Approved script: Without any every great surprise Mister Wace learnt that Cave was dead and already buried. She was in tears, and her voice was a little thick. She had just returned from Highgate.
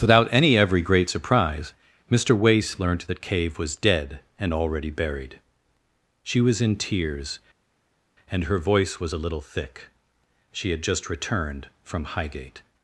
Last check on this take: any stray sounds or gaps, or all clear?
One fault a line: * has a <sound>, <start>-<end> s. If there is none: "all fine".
all fine